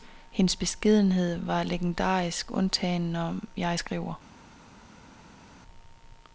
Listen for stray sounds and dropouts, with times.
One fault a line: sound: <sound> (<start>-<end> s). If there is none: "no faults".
no faults